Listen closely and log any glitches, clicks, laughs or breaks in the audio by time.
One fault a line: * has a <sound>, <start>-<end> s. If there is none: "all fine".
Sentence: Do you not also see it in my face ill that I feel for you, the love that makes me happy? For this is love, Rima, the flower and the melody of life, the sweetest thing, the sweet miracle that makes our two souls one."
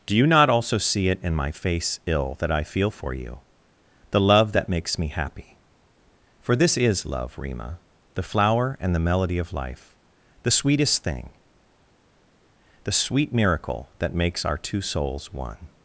all fine